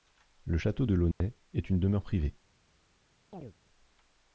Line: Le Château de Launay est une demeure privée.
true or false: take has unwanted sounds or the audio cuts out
true